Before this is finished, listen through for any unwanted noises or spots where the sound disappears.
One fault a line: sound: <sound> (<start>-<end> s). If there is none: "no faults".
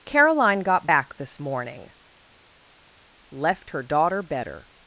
no faults